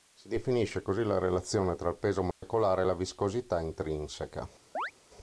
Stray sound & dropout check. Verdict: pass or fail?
fail